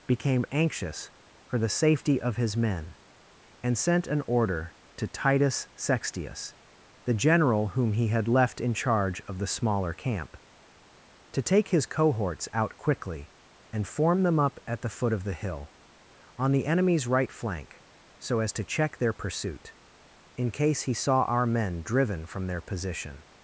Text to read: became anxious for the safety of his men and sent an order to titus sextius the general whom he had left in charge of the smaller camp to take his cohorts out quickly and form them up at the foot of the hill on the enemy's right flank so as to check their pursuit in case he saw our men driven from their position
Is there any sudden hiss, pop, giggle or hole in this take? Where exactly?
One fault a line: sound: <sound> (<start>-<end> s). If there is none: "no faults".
no faults